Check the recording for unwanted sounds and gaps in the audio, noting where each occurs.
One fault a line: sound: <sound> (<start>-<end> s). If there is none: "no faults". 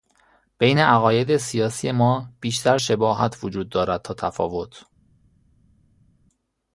no faults